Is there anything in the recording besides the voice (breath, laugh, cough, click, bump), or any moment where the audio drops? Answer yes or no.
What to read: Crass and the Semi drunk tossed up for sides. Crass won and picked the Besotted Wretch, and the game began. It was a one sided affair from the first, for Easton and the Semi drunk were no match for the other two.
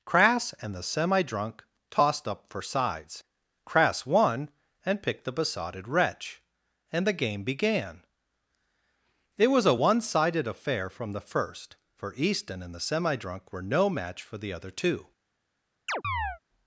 yes